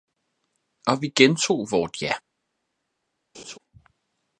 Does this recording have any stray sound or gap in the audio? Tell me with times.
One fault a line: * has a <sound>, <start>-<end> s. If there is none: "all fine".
* has a laugh, 3.3-3.6 s